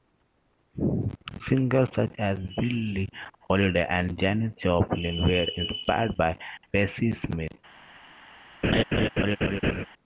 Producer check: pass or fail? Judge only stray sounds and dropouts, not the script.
fail